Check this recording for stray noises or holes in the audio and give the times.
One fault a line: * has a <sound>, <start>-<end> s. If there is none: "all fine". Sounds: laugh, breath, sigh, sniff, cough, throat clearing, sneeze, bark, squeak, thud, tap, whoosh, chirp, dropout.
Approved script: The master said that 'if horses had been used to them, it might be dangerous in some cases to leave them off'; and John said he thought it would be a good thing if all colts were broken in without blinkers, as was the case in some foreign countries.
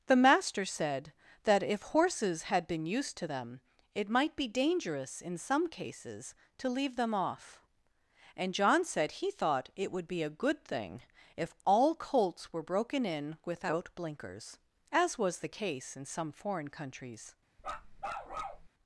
* has a bark, 17.6-18.7 s